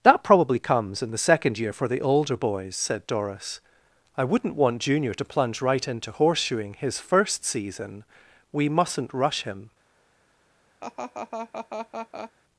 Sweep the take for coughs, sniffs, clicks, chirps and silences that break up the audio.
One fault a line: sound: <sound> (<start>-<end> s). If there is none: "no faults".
sound: laugh (10.8-12.3 s)